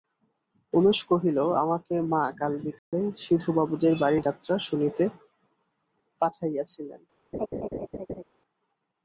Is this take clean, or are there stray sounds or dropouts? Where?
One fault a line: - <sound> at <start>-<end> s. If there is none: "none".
- dropout at 2.8-2.9 s
- laugh at 7.3-8.2 s